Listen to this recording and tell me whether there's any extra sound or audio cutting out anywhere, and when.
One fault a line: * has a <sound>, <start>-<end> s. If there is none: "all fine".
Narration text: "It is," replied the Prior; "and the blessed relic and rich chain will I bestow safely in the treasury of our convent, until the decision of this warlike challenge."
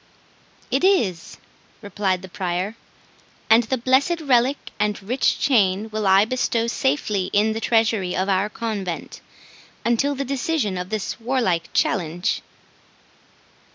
all fine